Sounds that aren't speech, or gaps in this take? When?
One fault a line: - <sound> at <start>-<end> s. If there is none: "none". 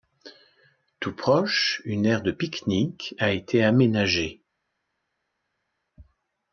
none